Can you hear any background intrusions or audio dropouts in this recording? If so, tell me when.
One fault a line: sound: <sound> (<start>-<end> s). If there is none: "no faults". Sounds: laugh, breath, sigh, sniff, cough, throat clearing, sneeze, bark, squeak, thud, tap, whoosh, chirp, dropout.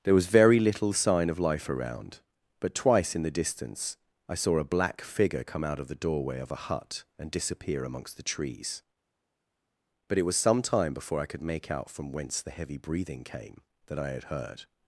no faults